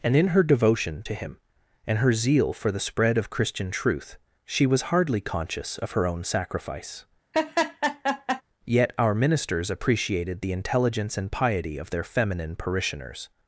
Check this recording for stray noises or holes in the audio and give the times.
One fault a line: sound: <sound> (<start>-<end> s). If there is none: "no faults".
sound: laugh (7.3-8.4 s)